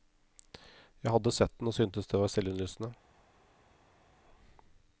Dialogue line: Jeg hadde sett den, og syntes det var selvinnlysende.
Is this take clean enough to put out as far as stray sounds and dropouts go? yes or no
yes